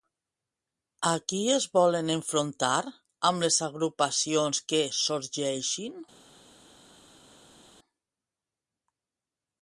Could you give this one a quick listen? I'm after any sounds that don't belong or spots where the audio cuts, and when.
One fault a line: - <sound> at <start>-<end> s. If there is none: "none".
none